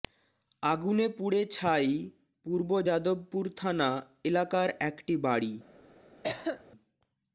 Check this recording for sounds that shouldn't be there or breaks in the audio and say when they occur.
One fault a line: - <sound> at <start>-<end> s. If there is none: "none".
- cough at 6.2-6.6 s